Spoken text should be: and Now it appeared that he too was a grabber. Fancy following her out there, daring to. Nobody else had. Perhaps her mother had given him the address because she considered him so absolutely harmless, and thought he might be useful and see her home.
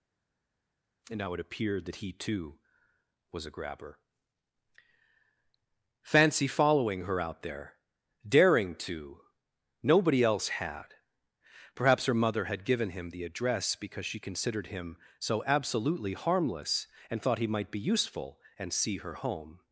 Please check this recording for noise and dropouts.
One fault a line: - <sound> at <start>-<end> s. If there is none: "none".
none